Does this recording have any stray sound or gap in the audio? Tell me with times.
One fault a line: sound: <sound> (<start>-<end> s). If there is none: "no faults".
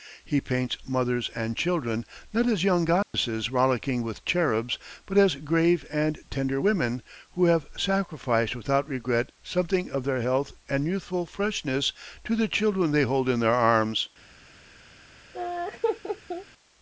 sound: dropout (3.0-3.1 s)
sound: laugh (15.3-16.5 s)